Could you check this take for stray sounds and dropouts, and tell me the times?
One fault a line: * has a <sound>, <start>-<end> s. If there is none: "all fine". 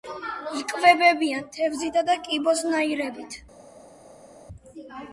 all fine